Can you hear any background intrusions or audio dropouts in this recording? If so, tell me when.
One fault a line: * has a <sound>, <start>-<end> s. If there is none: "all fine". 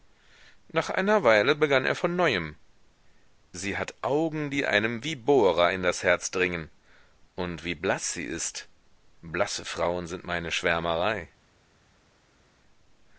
all fine